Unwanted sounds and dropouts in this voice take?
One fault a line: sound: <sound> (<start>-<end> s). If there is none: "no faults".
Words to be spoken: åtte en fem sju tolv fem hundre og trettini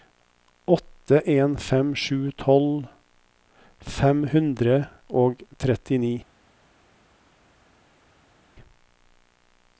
no faults